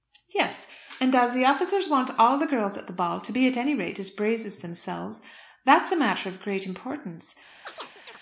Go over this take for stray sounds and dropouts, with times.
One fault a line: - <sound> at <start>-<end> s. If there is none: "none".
- chirp at 7.6-8.2 s